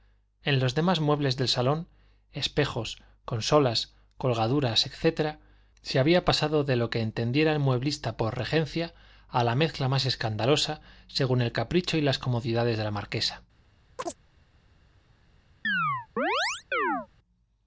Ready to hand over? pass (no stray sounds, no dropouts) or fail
fail